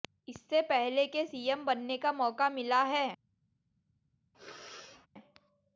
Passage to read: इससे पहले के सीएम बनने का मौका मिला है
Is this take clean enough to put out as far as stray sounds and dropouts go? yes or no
no